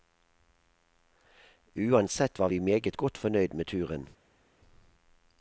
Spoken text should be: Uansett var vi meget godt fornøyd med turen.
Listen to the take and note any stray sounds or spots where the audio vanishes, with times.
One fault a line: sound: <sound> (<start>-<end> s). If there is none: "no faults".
no faults